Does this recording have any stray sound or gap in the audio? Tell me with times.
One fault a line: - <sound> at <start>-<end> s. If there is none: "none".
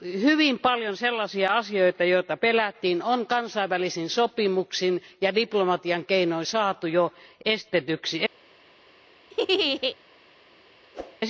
- laugh at 9.3-10.0 s
- whoosh at 10.9-11.2 s